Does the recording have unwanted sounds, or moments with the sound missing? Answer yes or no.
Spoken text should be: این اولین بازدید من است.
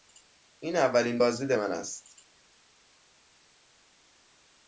no